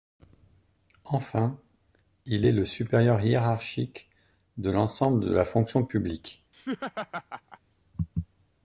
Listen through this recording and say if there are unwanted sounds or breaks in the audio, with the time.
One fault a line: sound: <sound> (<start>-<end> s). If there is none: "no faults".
sound: laugh (6.5-7.6 s)